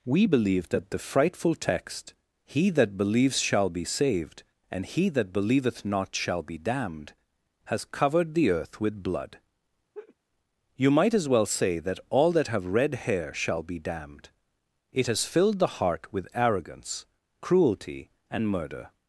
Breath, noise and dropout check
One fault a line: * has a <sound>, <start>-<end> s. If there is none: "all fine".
* has a laugh, 9.9-10.2 s